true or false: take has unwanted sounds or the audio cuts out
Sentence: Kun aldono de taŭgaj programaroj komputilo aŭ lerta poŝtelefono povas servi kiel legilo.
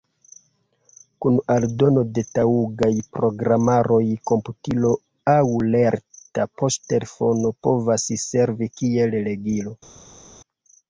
false